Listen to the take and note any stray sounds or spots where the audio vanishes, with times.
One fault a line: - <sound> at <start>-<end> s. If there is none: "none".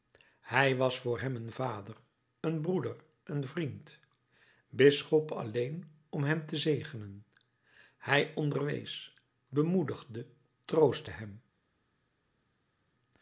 none